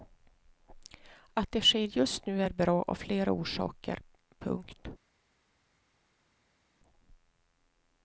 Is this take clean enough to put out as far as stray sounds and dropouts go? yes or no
yes